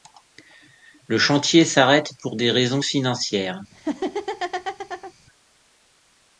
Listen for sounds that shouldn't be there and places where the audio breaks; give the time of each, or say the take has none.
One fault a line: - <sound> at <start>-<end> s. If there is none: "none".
- laugh at 3.7-5.1 s